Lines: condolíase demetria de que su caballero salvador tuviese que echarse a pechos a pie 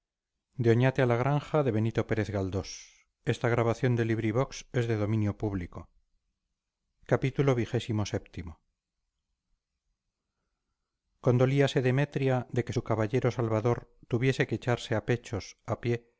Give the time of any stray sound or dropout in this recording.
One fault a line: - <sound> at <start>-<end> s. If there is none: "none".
none